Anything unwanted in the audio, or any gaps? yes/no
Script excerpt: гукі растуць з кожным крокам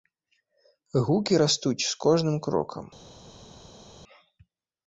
no